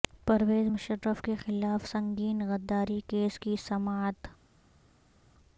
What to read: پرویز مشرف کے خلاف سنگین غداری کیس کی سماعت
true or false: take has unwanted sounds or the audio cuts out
false